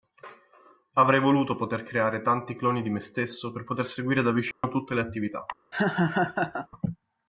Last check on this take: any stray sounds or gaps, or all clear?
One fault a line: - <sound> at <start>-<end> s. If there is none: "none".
- dropout at 4.5-4.6 s
- laugh at 5.7-6.7 s